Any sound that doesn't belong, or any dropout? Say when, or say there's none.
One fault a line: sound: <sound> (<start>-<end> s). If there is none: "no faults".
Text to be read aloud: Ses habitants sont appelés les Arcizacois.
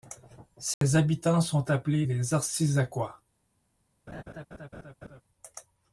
sound: dropout (0.7-0.8 s)
sound: laugh (4.1-5.2 s)